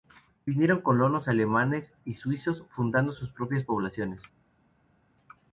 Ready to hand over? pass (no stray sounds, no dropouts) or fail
pass